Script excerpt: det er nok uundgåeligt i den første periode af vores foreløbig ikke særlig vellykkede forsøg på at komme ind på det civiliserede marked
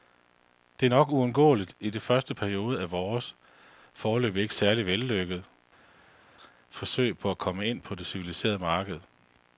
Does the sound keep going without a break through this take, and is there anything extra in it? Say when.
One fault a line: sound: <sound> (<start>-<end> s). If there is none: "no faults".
no faults